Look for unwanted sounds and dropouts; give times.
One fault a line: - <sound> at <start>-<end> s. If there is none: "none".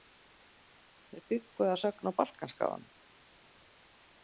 none